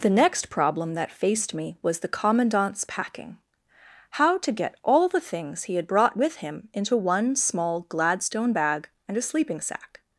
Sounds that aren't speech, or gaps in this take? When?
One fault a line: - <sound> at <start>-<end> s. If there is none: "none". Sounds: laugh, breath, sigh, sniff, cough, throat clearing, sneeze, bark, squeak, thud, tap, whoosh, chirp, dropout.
none